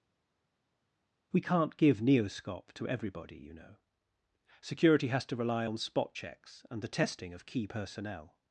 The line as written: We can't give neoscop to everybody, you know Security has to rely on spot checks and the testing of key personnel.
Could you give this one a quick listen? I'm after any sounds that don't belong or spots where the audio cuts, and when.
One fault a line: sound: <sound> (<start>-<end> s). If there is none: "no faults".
no faults